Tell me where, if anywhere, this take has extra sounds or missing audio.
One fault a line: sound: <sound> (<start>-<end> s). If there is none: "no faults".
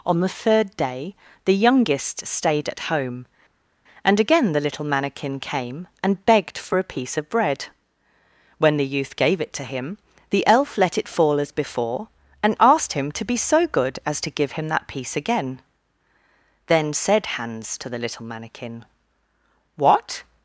no faults